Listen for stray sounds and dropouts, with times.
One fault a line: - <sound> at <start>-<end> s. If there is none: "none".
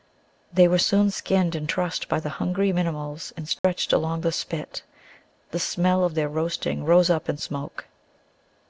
- dropout at 3.6-3.6 s